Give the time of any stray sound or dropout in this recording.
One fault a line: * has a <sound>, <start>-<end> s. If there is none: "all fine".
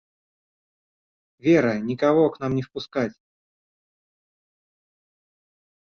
all fine